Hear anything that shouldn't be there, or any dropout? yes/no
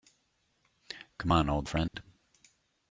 yes